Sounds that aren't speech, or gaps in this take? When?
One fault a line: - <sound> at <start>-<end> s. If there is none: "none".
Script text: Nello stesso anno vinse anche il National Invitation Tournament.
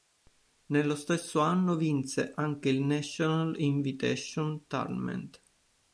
none